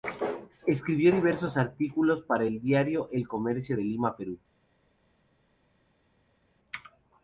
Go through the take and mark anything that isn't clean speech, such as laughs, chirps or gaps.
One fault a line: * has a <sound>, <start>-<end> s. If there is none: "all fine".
all fine